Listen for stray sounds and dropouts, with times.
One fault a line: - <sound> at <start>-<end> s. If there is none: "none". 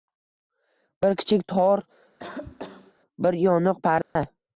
- cough at 2.2-2.9 s
- dropout at 4.0-4.2 s